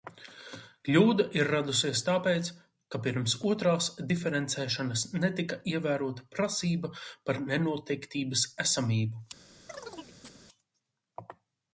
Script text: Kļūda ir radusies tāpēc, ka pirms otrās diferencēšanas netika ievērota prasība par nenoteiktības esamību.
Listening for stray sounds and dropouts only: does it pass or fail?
fail